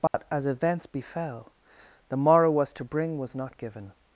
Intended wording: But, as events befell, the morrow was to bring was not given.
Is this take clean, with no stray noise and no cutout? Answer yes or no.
no